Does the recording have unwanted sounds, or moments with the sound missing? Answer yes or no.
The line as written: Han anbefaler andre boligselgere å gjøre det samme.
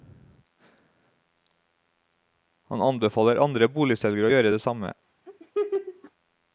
yes